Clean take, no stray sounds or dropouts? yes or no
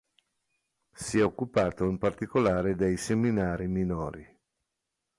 yes